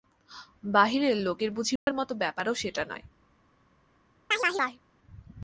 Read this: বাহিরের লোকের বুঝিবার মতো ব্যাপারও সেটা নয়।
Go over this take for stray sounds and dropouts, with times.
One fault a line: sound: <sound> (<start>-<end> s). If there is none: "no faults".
sound: dropout (1.8-1.9 s)
sound: chirp (4.3-4.8 s)